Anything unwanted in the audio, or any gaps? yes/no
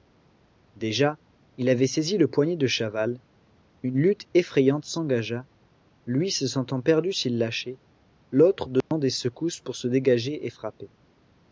yes